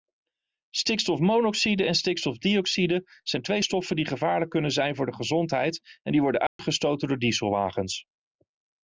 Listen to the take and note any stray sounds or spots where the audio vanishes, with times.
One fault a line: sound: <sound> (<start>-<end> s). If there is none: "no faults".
sound: dropout (6.5-6.6 s)